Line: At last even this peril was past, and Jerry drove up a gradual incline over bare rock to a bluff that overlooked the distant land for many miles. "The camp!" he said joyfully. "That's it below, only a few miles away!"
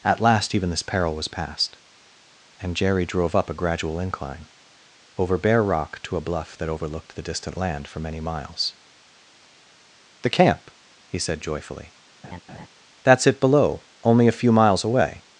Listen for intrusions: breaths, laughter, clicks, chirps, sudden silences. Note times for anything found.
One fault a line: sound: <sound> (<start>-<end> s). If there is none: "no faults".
sound: laugh (12.2-12.7 s)